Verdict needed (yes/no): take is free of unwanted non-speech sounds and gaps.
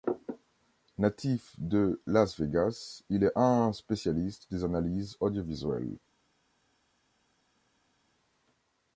yes